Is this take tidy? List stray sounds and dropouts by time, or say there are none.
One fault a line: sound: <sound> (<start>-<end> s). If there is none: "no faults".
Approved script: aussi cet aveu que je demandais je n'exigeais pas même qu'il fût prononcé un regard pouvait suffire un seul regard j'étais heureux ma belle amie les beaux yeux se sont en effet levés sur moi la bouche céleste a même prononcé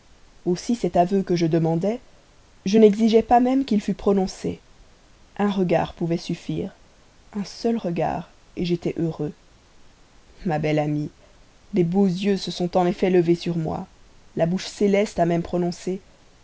no faults